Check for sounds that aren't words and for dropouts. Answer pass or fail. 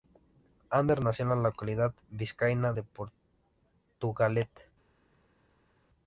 pass